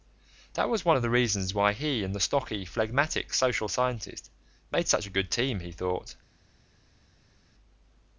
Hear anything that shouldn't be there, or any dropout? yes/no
no